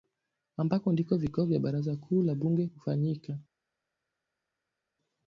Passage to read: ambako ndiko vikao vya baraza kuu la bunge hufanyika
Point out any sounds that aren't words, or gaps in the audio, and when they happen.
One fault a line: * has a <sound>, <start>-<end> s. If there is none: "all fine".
all fine